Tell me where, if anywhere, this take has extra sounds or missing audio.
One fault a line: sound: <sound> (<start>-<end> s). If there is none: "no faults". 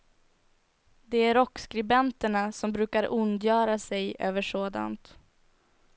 no faults